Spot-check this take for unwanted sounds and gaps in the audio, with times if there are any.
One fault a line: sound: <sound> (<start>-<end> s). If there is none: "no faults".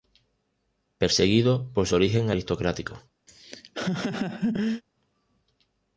sound: laugh (3.3-4.8 s)